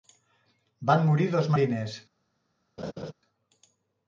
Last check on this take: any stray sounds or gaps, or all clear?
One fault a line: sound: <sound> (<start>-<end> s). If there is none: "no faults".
sound: laugh (2.8-3.1 s)